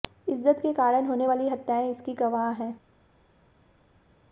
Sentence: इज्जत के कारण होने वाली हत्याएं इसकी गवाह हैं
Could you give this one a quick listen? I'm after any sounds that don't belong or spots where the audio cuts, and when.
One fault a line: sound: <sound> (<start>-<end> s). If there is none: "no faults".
no faults